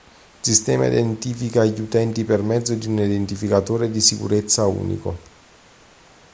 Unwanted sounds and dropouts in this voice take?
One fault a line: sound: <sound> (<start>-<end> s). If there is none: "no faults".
no faults